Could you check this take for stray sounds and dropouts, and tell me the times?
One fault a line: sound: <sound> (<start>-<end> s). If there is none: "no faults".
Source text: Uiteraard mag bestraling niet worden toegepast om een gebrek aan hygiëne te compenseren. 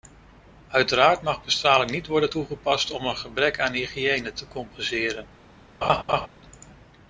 sound: laugh (5.8-6.3 s)